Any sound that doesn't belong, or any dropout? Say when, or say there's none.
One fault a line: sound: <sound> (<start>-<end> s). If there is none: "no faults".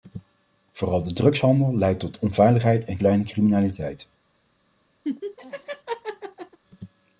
sound: laugh (5.0-6.6 s)